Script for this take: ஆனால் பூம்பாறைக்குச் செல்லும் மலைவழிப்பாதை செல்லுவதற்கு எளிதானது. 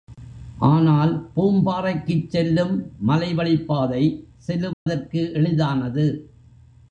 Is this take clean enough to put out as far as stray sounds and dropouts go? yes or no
no